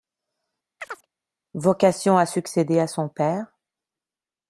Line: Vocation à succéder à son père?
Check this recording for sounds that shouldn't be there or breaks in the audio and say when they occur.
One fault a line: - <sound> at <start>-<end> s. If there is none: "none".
- chirp at 0.8-1.1 s